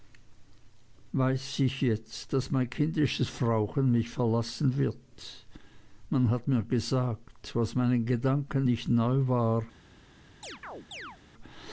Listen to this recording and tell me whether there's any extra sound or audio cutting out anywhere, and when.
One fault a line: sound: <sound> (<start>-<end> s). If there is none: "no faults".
sound: chirp (10.4-11.2 s)